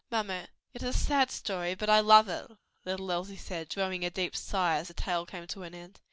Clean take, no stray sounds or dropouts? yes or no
yes